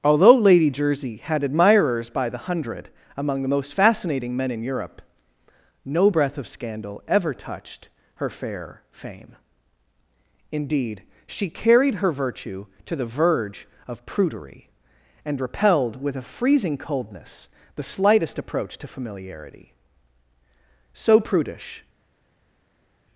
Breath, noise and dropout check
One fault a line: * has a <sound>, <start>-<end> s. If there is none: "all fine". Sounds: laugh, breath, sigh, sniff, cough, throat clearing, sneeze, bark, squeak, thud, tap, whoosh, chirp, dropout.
all fine